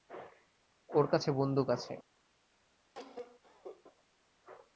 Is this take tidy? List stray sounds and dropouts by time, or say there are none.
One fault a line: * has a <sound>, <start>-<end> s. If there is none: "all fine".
* has a cough, 2.9-3.8 s